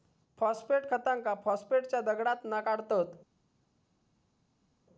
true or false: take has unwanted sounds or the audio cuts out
false